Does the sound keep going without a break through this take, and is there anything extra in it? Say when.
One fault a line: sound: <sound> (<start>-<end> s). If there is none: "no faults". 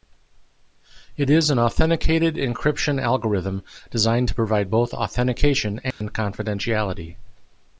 sound: dropout (5.9-6.0 s)